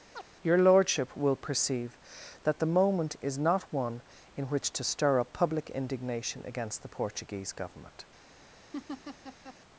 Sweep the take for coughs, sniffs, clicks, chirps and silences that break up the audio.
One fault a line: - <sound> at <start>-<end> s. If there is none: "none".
- chirp at 0.1-0.2 s
- laugh at 8.7-9.6 s